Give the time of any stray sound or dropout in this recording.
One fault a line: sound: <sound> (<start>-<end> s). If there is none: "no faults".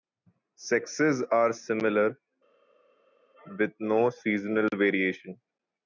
no faults